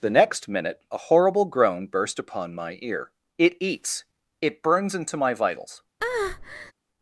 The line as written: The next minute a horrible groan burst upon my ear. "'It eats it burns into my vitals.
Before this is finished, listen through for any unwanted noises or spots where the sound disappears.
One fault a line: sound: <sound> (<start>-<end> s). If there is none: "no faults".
sound: breath (6.0-6.7 s)